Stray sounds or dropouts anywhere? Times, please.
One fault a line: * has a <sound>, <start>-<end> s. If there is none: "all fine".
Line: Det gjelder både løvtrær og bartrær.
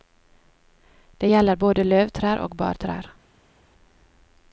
all fine